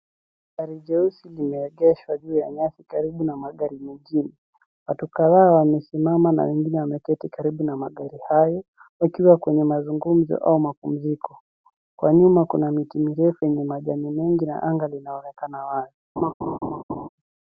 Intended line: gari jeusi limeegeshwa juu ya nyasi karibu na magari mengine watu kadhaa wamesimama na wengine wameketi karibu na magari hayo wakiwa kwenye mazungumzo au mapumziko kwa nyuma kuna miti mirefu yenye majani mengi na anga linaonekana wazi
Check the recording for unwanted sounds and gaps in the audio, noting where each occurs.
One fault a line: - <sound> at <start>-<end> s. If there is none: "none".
- laugh at 16.2-17.1 s